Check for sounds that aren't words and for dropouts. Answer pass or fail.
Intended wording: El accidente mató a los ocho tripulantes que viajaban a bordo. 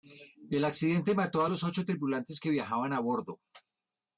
pass